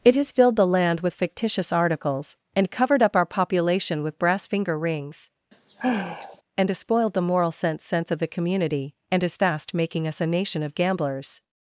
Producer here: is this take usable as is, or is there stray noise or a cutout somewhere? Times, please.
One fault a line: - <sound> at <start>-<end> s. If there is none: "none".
- sigh at 5.5-6.4 s